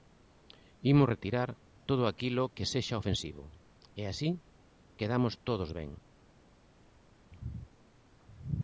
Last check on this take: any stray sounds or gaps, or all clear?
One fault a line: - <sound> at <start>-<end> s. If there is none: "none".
none